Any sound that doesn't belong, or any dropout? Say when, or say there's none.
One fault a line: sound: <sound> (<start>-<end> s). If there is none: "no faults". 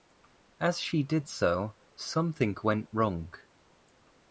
no faults